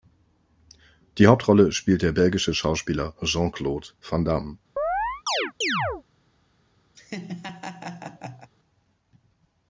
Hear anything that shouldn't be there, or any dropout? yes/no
yes